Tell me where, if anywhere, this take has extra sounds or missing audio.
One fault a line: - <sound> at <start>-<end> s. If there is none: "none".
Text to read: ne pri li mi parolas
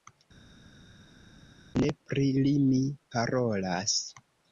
none